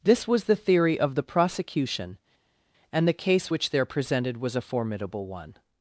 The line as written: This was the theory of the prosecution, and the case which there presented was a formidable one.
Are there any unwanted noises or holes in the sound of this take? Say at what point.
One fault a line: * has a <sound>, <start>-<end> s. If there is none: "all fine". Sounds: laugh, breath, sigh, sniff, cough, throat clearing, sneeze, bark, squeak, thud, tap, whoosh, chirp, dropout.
all fine